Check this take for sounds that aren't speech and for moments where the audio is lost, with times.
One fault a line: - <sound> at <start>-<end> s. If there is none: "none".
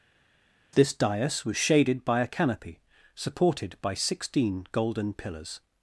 none